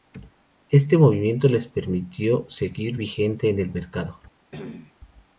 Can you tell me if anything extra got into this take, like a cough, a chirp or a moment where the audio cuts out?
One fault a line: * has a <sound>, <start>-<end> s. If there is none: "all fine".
* has a cough, 4.5-4.9 s